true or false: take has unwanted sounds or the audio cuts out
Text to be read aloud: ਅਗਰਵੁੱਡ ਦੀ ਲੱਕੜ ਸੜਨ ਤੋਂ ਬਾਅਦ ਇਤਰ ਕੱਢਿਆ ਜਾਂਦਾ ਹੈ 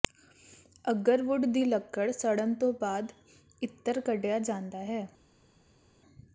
false